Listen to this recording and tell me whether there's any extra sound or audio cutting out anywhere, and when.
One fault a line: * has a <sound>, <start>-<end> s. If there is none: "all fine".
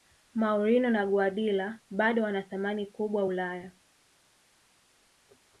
all fine